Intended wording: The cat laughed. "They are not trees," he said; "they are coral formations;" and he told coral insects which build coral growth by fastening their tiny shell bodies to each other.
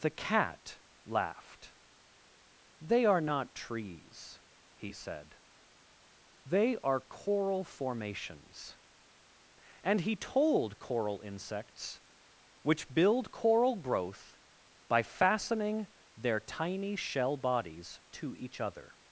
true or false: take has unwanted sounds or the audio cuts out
false